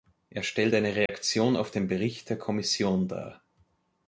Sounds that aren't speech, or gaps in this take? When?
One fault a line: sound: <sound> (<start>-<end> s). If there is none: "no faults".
sound: dropout (1.1-1.1 s)